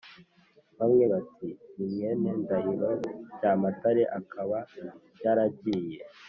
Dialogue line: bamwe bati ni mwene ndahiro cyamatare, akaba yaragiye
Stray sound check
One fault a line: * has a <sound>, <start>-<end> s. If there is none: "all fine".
all fine